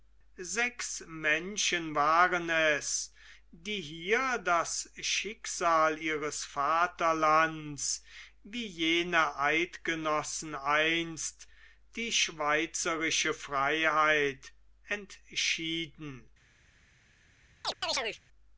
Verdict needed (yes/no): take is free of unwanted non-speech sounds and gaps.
no